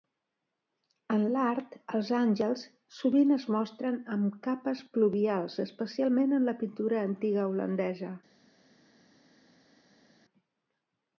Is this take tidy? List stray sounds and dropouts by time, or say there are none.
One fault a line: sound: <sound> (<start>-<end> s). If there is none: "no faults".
no faults